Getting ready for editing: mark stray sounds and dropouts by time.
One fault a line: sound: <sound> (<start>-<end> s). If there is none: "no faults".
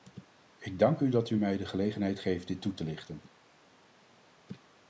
no faults